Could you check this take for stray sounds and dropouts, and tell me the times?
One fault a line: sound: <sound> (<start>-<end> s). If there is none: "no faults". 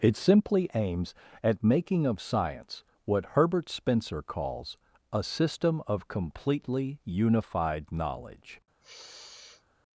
sound: sniff (8.8-9.6 s)